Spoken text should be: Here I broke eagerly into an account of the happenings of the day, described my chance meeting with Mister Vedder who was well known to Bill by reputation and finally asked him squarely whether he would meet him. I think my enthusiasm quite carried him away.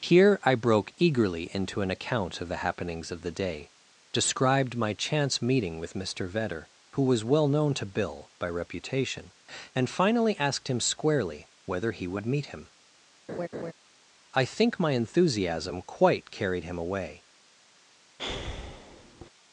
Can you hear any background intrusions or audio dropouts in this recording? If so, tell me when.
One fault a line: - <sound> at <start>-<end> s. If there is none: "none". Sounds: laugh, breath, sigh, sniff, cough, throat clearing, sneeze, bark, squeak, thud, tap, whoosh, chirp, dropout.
- laugh at 13.3-13.7 s
- breath at 18.2-19.3 s